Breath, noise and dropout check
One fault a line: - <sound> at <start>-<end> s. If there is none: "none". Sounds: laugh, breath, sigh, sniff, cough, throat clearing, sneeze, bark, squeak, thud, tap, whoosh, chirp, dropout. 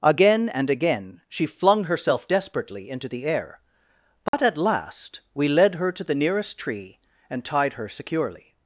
- dropout at 4.3-4.3 s